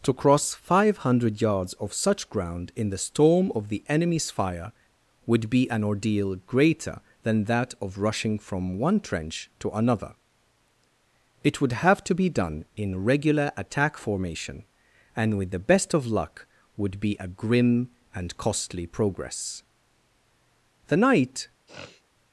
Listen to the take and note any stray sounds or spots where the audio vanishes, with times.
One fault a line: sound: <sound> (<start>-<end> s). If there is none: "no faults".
sound: sniff (21.7-22.0 s)